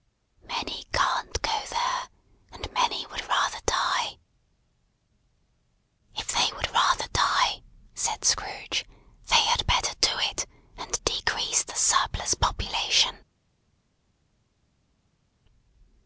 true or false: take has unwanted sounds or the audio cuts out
false